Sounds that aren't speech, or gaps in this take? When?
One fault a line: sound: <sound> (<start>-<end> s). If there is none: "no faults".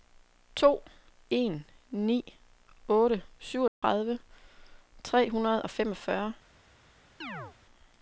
sound: dropout (3.7-3.8 s)
sound: chirp (7.2-7.6 s)